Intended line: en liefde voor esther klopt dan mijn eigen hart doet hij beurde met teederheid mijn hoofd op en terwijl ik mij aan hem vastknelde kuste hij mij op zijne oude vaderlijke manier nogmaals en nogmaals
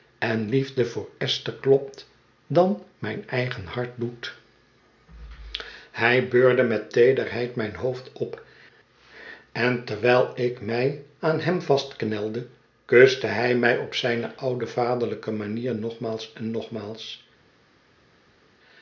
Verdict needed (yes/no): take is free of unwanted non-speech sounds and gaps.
yes